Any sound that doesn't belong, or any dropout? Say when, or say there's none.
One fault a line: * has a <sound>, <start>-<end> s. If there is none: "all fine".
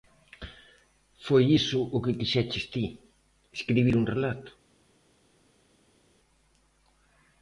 all fine